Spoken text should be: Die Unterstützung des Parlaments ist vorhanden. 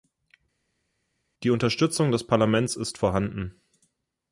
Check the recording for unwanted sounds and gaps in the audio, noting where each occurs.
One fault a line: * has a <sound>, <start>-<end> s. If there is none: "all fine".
all fine